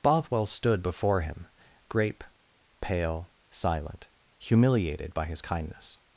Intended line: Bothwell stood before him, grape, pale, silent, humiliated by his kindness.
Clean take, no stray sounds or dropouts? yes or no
yes